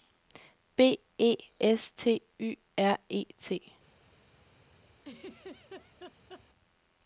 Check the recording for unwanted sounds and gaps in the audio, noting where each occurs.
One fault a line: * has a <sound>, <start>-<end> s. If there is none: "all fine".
* has a laugh, 5.0-6.4 s